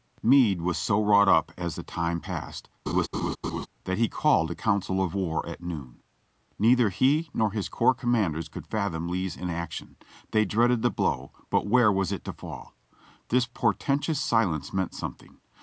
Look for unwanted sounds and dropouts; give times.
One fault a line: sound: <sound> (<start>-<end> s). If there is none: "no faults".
sound: laugh (2.9-3.7 s)